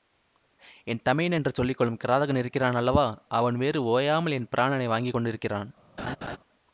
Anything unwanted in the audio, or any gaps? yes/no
yes